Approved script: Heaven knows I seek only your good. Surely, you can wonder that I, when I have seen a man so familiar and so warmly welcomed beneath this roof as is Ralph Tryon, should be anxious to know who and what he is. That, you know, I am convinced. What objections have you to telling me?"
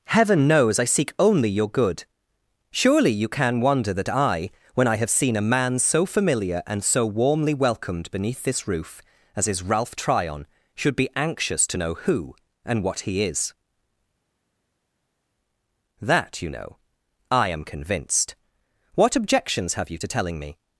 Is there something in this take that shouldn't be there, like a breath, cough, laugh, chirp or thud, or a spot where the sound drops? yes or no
no